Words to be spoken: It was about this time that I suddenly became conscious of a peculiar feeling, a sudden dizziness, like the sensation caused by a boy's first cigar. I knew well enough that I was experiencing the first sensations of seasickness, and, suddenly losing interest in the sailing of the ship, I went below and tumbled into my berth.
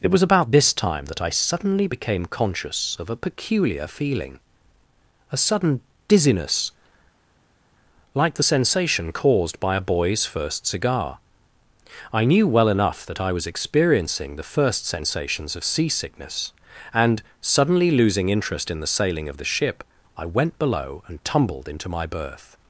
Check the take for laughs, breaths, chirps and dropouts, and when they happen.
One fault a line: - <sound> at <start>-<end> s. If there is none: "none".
none